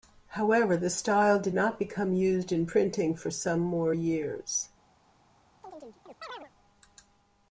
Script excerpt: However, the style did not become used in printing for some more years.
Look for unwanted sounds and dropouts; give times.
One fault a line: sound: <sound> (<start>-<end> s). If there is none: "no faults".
sound: chirp (5.6-6.5 s)